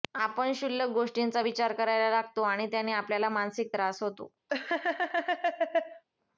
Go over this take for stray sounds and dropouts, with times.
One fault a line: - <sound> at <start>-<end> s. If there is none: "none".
- laugh at 4.5-6.0 s